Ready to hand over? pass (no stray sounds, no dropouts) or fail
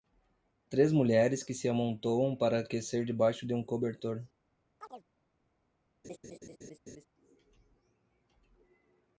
fail